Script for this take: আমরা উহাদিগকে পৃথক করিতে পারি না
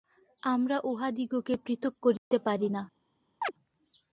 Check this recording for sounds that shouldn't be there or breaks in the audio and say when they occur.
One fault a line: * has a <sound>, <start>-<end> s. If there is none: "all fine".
* has a dropout, 2.2-2.3 s
* has a chirp, 3.4-3.5 s